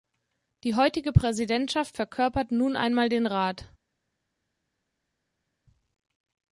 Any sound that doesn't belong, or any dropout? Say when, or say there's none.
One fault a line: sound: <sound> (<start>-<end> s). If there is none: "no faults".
no faults